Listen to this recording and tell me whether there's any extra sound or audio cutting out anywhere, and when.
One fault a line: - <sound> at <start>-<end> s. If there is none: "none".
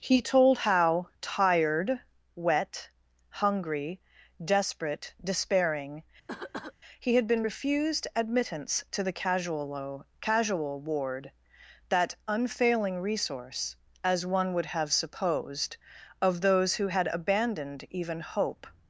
- cough at 6.3-6.7 s